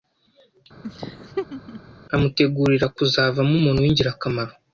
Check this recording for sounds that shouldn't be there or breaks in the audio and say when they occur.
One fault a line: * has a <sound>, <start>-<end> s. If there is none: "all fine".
* has a laugh, 0.8-1.8 s